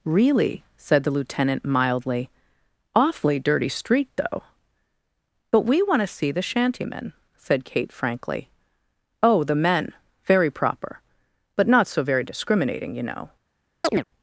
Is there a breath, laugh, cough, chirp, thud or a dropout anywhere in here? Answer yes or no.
yes